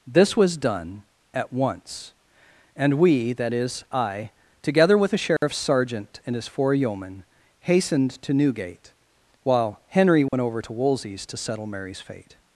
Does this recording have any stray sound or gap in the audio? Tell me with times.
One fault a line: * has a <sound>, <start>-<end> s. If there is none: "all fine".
* has a dropout, 5.4-5.4 s
* has a dropout, 10.3-10.3 s